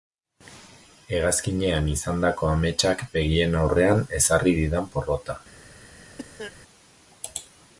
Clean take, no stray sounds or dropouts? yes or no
no